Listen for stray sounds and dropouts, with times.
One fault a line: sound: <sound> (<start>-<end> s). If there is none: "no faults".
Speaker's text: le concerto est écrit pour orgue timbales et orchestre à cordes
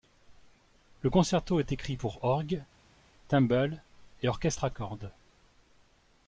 no faults